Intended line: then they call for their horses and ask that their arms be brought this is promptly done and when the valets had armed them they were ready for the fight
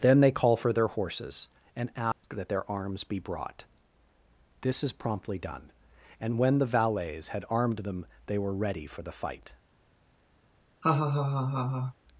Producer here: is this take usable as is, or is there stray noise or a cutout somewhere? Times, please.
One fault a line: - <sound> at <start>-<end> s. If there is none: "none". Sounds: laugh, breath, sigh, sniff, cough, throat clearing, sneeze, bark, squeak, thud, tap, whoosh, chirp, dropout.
- dropout at 2.1-2.2 s
- laugh at 10.8-11.9 s